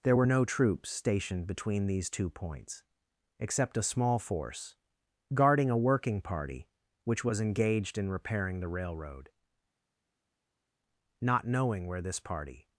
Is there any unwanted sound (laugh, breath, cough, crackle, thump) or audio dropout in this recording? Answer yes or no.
no